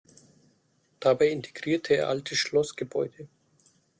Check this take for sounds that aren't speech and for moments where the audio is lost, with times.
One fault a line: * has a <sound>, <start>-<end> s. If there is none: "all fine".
all fine